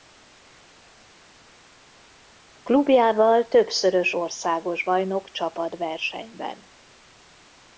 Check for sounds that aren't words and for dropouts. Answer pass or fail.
pass